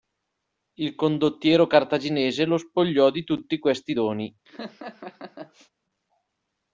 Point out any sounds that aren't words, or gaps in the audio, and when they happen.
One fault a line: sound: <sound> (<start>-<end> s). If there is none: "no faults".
sound: laugh (4.5-5.7 s)